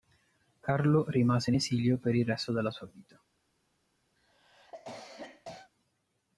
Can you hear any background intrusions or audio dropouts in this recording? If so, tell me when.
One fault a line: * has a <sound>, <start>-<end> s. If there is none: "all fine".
* has a cough, 4.2-5.7 s